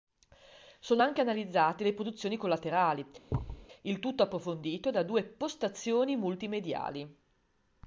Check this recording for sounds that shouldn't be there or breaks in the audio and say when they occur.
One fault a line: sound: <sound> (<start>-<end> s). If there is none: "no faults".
sound: thud (3.3-3.7 s)